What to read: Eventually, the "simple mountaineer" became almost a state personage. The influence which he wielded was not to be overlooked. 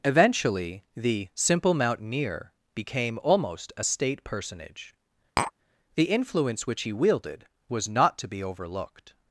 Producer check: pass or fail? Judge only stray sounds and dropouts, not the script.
fail